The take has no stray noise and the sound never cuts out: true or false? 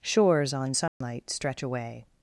false